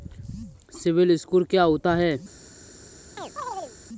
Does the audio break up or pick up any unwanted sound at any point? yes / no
yes